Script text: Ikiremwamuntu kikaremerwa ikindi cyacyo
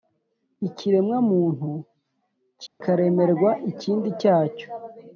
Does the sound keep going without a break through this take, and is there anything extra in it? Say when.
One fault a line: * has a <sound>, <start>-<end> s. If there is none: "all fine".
* has a dropout, 2.7-2.8 s